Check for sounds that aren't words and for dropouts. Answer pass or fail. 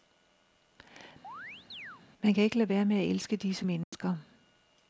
fail